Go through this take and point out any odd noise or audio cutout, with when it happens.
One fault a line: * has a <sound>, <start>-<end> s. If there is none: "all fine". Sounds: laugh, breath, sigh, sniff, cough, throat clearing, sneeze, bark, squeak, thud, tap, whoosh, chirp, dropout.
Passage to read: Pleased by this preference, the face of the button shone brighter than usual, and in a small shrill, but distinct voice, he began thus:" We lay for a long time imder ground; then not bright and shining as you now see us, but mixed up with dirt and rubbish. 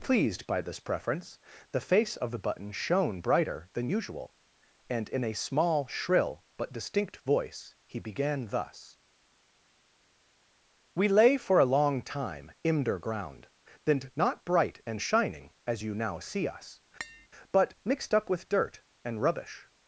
* has a tap, 17.0-17.3 s